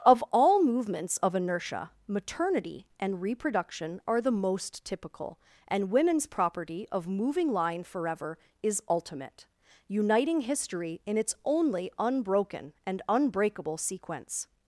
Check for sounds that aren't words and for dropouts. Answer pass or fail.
pass